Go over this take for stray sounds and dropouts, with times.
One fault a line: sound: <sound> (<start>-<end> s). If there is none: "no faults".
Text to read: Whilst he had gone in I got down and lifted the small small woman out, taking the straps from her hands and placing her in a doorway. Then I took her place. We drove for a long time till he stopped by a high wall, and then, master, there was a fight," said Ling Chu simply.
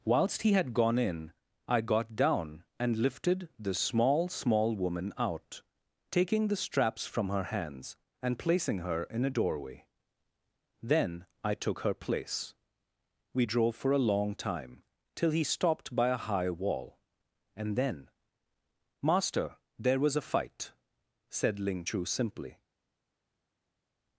no faults